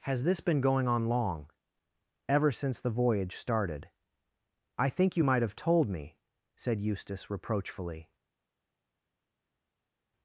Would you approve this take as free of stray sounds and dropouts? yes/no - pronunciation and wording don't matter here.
yes